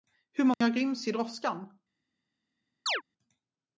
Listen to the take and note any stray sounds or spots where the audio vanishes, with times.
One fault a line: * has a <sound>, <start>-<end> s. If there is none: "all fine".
* has a dropout, 0.5-0.6 s
* has a chirp, 2.9-3.0 s